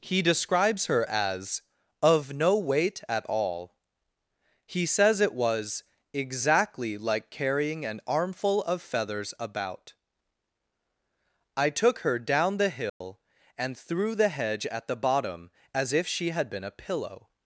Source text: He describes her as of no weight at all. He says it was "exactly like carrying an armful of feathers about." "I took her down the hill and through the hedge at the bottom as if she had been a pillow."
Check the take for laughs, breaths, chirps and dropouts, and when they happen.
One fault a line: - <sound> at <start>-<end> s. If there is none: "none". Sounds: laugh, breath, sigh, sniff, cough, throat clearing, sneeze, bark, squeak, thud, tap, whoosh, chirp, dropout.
- dropout at 12.9-13.0 s